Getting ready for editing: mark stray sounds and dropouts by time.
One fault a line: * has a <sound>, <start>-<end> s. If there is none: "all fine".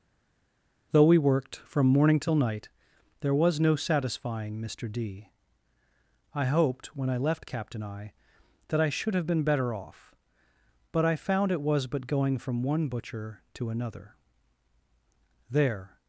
all fine